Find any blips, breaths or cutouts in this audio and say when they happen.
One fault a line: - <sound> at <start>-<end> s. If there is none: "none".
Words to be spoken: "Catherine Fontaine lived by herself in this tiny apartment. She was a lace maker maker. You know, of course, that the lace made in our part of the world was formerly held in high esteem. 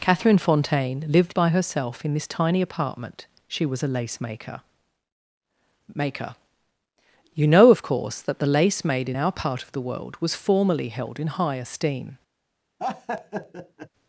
- laugh at 12.8-13.9 s